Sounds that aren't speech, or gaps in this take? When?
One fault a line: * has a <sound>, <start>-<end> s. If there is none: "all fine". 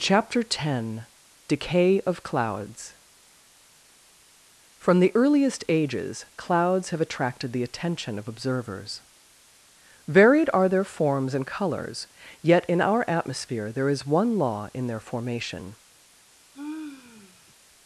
* has a sigh, 16.5-17.5 s